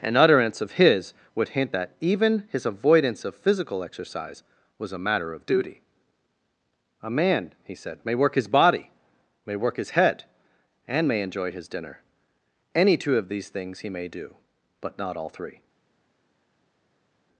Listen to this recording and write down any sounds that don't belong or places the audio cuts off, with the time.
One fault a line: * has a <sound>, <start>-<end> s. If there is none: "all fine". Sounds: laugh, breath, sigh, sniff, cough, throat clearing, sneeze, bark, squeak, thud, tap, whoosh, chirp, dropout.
all fine